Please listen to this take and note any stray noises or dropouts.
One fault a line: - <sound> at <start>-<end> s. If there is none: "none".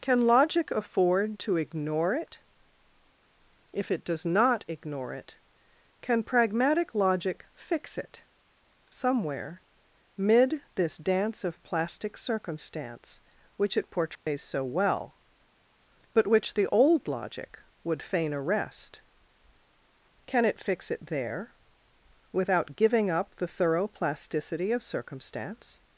- dropout at 14.2-14.3 s